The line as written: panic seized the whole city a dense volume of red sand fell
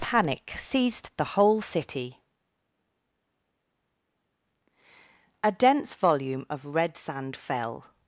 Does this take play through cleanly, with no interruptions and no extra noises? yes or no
yes